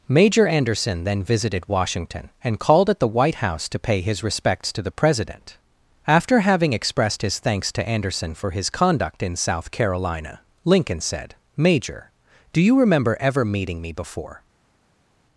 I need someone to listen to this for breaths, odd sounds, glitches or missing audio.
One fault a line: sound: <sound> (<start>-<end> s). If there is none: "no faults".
no faults